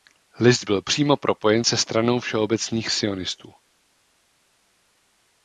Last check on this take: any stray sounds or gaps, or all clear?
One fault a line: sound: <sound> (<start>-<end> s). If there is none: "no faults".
no faults